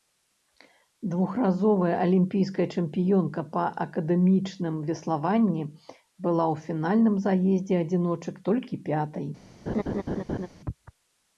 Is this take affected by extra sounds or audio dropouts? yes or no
yes